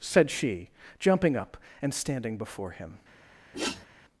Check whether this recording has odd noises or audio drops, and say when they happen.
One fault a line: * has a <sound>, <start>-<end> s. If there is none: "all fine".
* has a sniff, 3.5-3.9 s